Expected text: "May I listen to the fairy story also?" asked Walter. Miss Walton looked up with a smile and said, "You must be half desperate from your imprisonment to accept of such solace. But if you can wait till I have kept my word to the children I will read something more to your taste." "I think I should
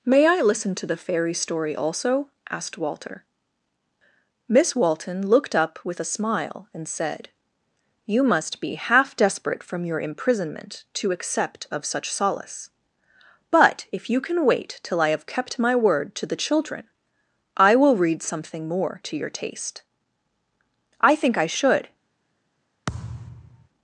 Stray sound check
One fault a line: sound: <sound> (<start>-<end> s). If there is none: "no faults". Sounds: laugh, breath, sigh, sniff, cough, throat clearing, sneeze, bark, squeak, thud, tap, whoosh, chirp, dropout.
sound: thud (22.9-23.7 s)